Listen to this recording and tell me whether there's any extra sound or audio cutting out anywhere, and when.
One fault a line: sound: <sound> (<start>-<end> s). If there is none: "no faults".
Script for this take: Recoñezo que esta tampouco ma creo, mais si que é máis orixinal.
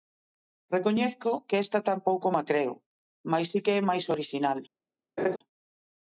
sound: laugh (5.2-5.4 s)